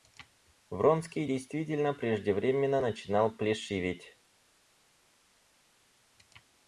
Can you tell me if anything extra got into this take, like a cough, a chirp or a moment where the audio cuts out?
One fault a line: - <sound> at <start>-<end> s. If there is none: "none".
none